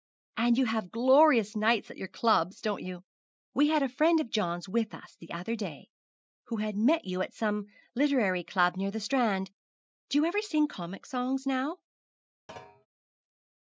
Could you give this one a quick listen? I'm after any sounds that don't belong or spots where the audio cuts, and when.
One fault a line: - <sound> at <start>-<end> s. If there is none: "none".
- thud at 12.5-12.9 s